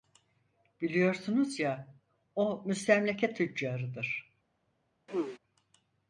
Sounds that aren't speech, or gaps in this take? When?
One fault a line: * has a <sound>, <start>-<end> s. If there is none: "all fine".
* has a throat clearing, 5.1-5.4 s